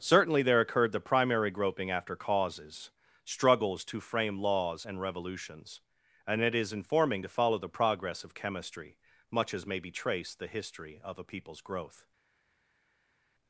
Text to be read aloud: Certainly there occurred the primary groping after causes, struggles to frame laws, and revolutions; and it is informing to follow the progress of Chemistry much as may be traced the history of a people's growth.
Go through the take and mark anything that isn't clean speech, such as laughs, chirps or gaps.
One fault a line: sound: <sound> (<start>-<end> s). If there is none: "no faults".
no faults